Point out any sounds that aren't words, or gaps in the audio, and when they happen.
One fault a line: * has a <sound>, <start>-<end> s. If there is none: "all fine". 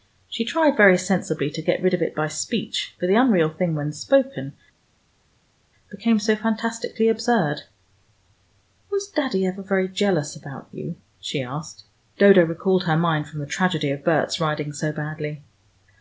all fine